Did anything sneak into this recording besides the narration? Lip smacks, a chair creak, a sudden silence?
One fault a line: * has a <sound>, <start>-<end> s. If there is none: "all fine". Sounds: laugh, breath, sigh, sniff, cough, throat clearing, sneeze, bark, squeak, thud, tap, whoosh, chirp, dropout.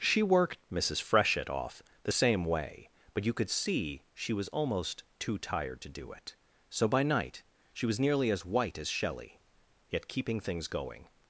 all fine